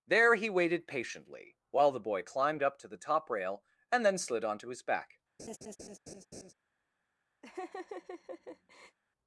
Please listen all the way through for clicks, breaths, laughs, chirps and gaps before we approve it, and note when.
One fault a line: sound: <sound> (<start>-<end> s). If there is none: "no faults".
sound: laugh (5.4-6.5 s)
sound: laugh (7.4-9.0 s)